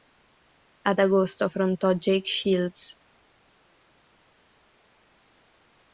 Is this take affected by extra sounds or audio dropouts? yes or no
no